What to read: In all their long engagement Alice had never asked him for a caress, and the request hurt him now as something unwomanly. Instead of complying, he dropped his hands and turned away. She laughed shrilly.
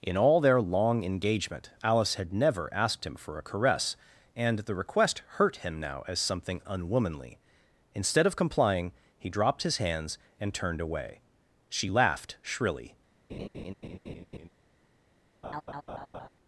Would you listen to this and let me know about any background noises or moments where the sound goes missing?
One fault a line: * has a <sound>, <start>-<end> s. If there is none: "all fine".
* has a laugh, 13.3-14.5 s
* has a laugh, 15.4-16.3 s